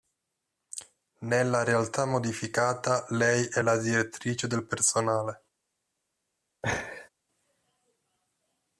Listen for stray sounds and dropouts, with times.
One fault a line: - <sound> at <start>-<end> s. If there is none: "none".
- laugh at 6.6-7.1 s